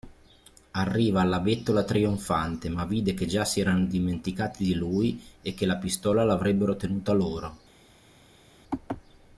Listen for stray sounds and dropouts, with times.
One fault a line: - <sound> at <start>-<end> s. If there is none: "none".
none